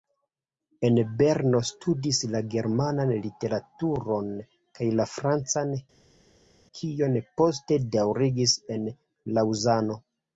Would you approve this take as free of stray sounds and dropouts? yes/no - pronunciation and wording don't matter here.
yes